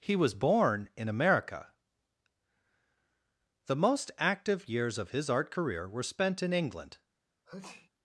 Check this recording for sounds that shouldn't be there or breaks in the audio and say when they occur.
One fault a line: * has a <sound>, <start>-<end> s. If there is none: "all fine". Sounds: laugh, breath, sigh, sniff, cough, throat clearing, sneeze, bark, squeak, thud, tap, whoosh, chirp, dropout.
* has a sneeze, 7.5-7.9 s